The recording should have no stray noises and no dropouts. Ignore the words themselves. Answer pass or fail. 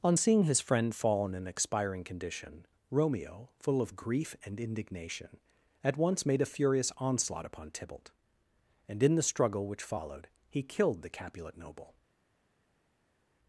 pass